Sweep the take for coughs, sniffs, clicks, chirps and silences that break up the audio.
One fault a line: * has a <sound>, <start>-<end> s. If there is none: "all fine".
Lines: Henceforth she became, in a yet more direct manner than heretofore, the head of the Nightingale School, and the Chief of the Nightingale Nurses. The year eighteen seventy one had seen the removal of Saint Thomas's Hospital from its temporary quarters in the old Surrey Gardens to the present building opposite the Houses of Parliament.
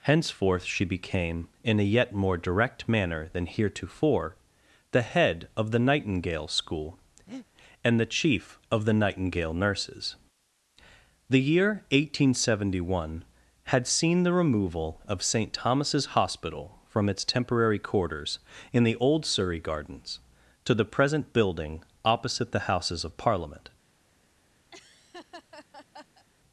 * has a breath, 7.3-7.5 s
* has a laugh, 24.7-26.3 s